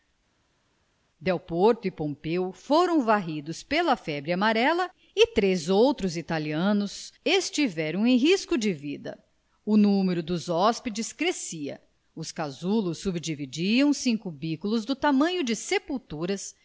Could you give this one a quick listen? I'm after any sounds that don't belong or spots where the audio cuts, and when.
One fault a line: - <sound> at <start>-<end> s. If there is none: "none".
none